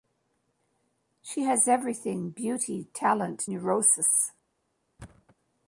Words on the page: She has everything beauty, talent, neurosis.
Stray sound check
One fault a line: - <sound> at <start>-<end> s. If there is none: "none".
- thud at 5.0-5.4 s